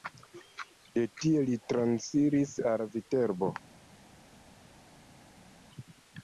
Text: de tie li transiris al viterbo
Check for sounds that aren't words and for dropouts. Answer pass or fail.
pass